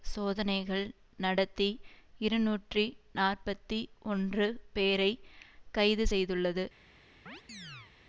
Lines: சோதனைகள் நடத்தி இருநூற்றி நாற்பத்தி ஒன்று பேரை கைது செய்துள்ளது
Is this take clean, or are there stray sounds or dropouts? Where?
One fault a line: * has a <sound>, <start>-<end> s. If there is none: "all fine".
* has a chirp, 7.3-7.9 s